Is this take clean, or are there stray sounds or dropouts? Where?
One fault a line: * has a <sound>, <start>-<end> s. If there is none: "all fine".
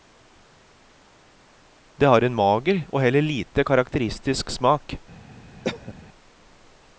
* has a cough, 5.6-5.9 s